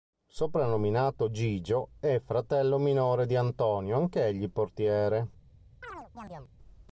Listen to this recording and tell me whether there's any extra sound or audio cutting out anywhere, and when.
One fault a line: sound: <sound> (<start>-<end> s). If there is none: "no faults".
sound: chirp (5.8-6.5 s)